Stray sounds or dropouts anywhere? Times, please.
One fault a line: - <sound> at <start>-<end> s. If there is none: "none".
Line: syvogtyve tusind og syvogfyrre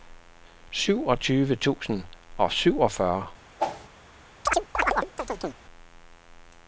- whoosh at 3.6-3.9 s
- chirp at 4.5-5.6 s